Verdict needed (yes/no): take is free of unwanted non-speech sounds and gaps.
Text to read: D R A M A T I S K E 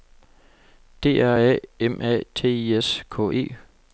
yes